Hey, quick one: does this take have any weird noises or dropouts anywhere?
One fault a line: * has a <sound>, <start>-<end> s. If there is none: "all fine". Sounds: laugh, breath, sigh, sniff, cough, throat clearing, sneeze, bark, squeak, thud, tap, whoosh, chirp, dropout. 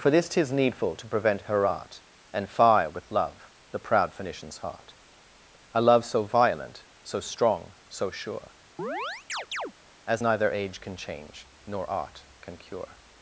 * has a chirp, 8.8-9.7 s